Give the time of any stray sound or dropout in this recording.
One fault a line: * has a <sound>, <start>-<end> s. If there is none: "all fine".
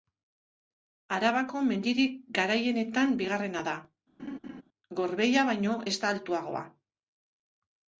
* has a laugh, 4.2-4.6 s